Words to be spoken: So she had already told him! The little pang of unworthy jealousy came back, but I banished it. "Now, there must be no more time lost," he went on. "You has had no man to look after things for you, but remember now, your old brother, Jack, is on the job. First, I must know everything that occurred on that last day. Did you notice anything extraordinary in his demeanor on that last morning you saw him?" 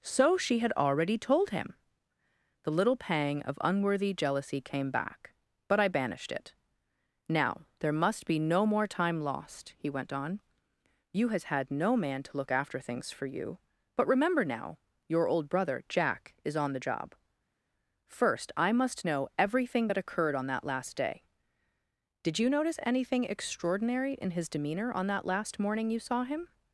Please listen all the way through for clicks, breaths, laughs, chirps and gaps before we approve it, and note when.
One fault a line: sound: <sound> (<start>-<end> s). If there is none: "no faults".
no faults